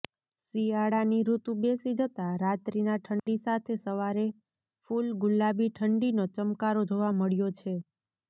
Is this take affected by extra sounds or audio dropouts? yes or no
yes